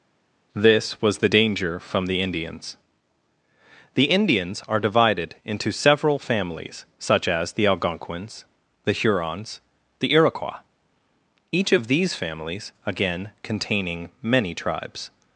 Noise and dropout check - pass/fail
pass